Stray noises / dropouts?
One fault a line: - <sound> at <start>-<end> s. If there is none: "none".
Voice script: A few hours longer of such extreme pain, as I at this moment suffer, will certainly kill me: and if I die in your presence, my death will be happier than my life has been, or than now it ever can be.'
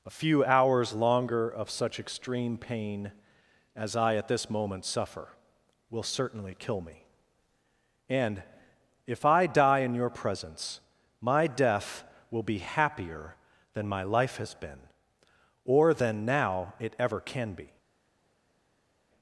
none